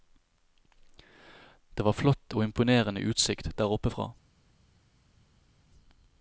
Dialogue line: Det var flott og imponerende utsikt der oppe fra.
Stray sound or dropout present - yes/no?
no